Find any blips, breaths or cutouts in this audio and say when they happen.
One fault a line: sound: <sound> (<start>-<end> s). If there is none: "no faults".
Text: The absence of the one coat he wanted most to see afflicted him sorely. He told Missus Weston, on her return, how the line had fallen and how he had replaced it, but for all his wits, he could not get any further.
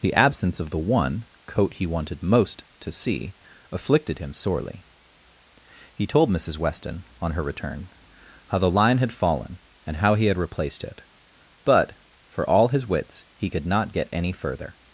no faults